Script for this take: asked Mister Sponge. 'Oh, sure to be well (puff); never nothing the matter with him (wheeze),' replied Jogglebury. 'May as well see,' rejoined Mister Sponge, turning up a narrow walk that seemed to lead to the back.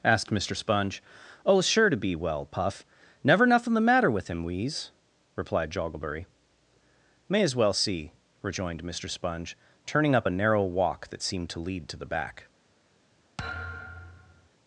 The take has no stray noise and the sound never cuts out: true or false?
false